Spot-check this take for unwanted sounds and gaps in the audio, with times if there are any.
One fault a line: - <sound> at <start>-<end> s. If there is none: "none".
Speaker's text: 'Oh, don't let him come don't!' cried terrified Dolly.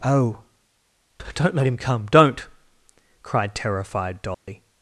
- dropout at 4.3-4.5 s